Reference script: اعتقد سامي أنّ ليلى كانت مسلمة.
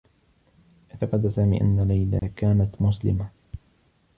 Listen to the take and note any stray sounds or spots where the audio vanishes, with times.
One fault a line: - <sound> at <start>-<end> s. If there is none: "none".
- dropout at 2.2-2.2 s